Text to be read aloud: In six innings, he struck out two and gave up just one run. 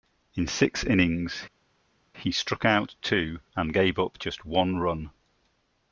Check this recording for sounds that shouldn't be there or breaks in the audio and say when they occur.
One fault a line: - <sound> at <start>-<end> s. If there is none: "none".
none